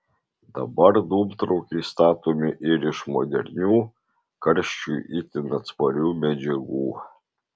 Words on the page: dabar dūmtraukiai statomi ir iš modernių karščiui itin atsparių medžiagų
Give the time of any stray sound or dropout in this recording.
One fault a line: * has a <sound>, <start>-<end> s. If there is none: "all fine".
all fine